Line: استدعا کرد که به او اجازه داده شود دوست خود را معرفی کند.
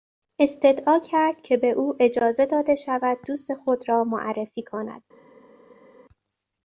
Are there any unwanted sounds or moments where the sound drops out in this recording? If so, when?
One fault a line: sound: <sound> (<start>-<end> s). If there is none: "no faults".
no faults